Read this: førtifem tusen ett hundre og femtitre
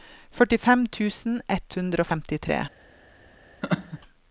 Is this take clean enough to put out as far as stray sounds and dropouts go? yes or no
no